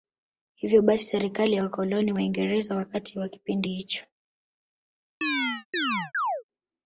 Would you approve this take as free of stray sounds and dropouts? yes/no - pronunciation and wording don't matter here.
no